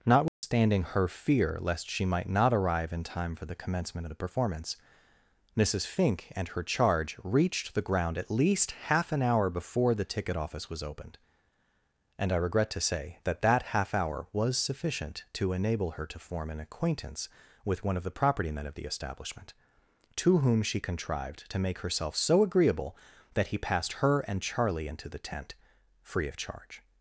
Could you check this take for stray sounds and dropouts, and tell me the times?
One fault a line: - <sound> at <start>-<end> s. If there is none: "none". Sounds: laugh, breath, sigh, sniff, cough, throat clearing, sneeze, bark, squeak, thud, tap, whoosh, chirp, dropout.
- dropout at 0.3-0.4 s